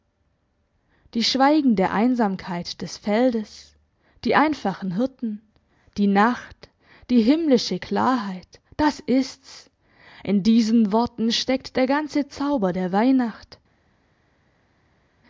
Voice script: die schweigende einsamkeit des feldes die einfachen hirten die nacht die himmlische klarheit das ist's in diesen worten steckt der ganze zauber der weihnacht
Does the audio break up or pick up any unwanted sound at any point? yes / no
no